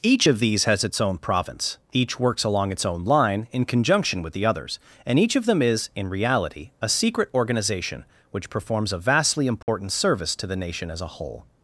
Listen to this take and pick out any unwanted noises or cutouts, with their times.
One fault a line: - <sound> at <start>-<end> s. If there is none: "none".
- dropout at 9.6-9.7 s